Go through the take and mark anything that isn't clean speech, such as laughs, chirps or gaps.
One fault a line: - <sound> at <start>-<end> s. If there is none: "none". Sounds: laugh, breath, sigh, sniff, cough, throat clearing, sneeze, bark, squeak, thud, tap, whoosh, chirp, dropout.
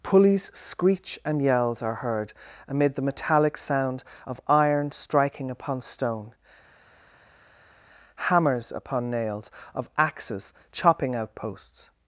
none